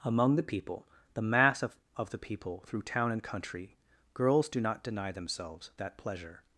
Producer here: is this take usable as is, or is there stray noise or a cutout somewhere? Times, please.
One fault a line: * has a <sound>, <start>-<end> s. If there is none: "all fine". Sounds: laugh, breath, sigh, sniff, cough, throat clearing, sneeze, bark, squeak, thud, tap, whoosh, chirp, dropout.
all fine